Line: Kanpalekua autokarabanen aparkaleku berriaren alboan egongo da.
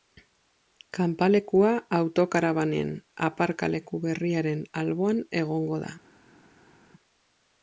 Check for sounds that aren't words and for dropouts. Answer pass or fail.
pass